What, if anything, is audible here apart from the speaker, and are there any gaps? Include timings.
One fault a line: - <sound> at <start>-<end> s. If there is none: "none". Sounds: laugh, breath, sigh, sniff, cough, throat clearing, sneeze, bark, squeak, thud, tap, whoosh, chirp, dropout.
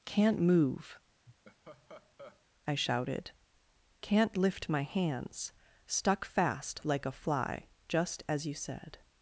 - laugh at 1.3-2.5 s